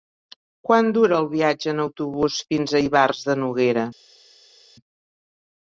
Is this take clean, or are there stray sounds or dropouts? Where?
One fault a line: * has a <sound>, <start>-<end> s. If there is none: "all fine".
all fine